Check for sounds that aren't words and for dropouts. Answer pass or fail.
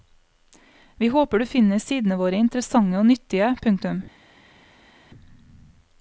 pass